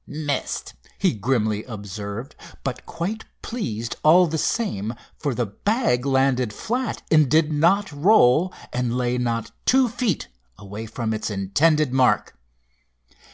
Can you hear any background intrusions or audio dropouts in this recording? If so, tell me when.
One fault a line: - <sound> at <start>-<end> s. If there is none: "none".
none